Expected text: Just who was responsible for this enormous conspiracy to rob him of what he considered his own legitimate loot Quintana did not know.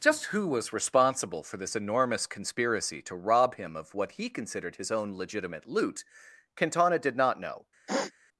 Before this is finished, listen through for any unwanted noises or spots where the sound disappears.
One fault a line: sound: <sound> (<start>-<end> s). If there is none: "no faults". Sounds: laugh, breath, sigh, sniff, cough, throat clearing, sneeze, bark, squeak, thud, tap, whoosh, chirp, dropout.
sound: sniff (7.9-8.1 s)